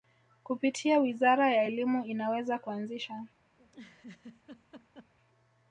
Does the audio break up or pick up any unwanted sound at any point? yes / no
yes